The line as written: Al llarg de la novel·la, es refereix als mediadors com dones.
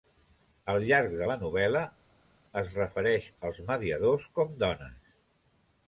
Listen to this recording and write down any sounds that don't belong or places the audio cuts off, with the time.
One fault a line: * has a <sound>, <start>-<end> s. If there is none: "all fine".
all fine